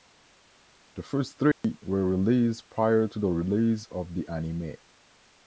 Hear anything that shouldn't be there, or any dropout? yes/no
yes